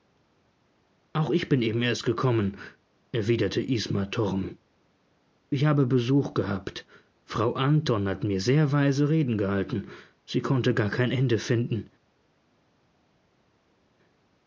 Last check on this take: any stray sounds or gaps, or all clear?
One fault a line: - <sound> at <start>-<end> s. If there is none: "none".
none